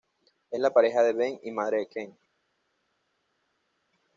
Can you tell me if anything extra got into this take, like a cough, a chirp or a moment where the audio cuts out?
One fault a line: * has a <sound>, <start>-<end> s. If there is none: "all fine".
all fine